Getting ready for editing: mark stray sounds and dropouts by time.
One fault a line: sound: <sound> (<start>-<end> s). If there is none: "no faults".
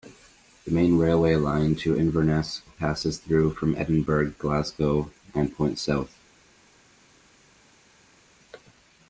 no faults